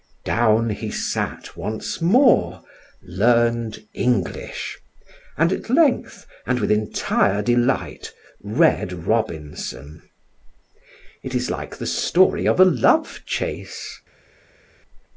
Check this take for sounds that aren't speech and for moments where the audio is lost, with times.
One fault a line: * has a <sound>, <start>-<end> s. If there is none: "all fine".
all fine